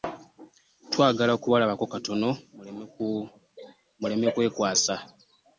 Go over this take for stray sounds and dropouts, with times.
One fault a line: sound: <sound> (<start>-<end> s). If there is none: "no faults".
no faults